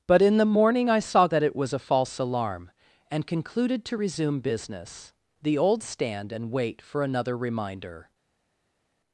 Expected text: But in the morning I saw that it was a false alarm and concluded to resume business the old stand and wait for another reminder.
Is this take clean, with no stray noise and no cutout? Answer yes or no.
yes